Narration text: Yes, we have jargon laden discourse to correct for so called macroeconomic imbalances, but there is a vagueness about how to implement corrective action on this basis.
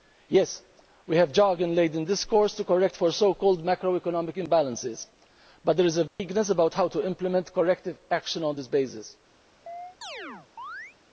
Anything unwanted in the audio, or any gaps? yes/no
yes